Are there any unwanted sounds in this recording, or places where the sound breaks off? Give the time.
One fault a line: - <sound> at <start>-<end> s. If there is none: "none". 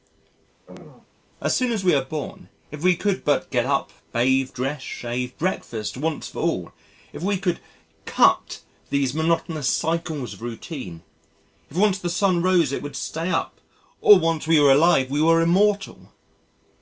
- throat clearing at 0.7-1.1 s